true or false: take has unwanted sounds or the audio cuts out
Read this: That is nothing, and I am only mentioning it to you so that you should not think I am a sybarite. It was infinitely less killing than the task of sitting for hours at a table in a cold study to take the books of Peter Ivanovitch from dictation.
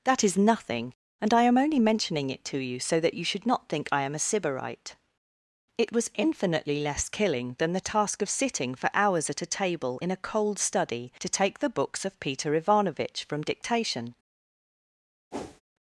true